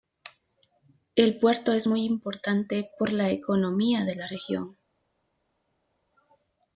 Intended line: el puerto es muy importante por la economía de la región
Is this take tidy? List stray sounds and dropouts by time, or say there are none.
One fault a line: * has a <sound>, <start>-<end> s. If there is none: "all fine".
all fine